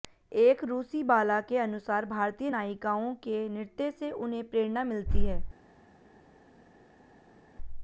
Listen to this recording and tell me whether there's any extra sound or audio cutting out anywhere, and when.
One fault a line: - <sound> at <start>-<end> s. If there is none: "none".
none